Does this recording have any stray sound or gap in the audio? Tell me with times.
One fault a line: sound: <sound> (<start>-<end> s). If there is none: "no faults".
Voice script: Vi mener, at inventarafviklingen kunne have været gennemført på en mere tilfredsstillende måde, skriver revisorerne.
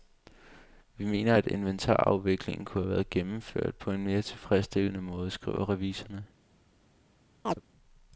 sound: chirp (7.5-7.6 s)